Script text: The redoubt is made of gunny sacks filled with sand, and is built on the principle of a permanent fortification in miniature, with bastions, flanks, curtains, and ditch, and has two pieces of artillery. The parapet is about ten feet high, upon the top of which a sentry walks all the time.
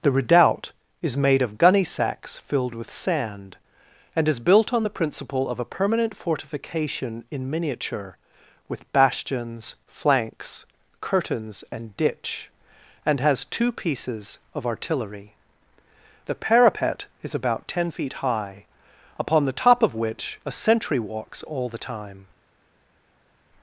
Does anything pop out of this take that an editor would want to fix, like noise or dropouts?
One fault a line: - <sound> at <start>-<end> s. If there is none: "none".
none